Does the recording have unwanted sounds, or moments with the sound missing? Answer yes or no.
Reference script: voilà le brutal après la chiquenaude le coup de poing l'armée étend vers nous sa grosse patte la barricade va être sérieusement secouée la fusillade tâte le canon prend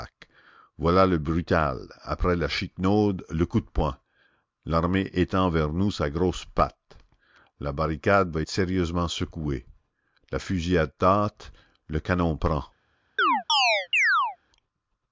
yes